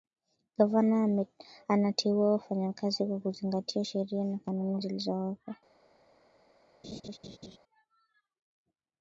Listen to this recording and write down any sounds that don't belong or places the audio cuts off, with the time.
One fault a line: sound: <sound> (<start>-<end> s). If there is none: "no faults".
sound: laugh (6.8-7.6 s)